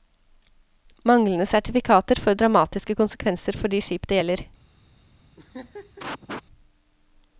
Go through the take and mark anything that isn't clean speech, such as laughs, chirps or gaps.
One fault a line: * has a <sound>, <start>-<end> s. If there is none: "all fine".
* has a laugh, 5.4-6.4 s